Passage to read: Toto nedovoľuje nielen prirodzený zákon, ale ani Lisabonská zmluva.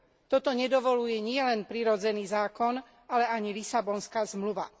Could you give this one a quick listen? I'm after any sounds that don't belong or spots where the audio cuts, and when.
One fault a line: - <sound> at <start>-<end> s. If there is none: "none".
none